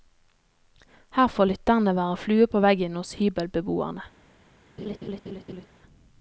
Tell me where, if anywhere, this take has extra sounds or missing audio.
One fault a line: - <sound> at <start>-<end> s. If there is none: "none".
- laugh at 4.8-5.7 s